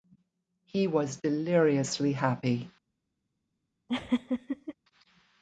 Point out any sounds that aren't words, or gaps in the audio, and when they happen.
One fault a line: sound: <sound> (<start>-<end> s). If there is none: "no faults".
sound: laugh (3.9-4.7 s)